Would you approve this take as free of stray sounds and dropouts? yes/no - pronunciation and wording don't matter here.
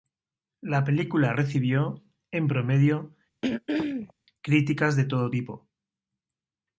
no